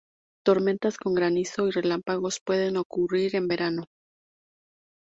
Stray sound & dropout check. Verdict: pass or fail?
pass